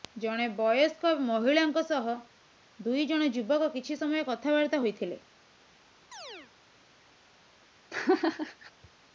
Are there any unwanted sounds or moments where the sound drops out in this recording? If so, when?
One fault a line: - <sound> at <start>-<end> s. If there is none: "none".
- chirp at 6.1-6.5 s
- laugh at 7.9-8.7 s